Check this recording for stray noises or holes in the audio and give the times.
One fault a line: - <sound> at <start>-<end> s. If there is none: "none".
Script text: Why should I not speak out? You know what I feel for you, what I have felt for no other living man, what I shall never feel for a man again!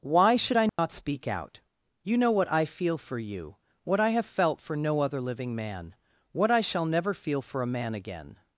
- dropout at 0.7-0.8 s